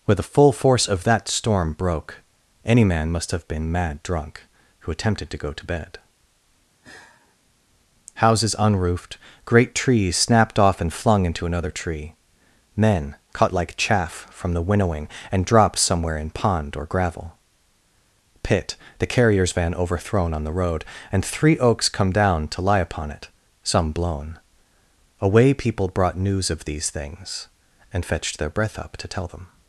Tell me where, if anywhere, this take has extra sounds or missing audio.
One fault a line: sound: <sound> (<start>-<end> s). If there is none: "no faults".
sound: sigh (6.8-7.4 s)